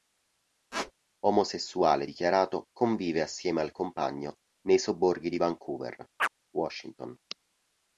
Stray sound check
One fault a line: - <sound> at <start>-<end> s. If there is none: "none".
- squeak at 0.7-0.9 s
- chirp at 6.2-6.3 s